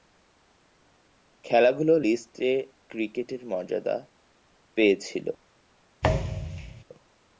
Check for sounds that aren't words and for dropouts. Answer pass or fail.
fail